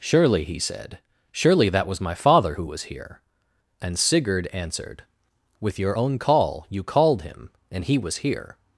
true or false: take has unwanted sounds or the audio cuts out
false